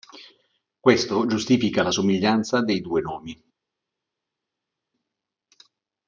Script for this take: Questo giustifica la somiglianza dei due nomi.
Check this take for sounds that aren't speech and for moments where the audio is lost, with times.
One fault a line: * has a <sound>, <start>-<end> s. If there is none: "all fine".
all fine